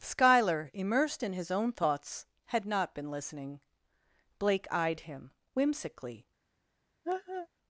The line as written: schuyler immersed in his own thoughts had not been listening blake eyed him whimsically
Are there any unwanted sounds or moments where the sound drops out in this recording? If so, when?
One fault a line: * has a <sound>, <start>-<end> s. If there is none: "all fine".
* has a laugh, 7.0-7.5 s